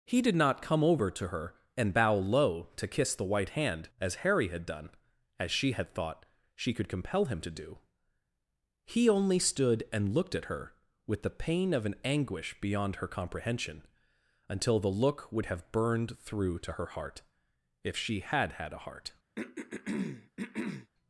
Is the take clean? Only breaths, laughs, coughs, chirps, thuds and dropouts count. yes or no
no